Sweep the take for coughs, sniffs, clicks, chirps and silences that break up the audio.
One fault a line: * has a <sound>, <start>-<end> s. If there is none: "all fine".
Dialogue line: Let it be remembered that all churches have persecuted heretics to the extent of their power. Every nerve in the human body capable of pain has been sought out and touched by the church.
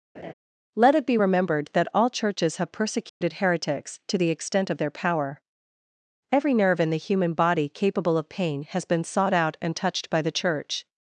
* has a laugh, 0.1-0.3 s
* has a dropout, 3.1-3.2 s